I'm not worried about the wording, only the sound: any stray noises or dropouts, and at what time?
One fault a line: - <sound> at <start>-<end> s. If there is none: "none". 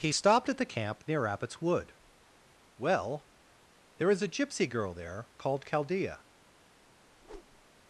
- whoosh at 7.1-7.7 s